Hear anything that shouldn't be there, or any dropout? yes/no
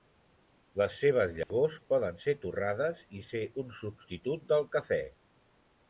yes